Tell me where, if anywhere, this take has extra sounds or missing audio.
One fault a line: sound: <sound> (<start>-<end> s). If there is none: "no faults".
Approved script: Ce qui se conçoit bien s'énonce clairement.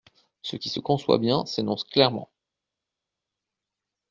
no faults